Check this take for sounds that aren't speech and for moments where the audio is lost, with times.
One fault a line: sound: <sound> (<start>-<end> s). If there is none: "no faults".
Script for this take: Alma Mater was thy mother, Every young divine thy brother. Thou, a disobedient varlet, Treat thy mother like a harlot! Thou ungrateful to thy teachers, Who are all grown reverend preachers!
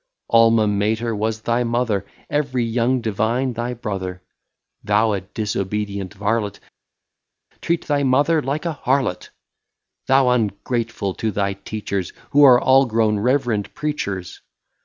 no faults